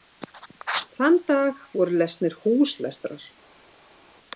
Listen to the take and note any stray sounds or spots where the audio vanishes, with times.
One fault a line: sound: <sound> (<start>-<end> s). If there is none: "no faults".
no faults